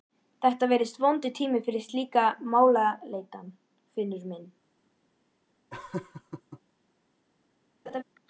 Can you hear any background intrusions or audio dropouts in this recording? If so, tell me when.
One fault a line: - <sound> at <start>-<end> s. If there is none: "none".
- laugh at 5.7-6.6 s
- laugh at 7.9-8.0 s